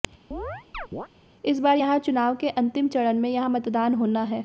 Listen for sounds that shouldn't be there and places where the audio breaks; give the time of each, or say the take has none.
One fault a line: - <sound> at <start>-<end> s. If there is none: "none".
- chirp at 0.3-1.1 s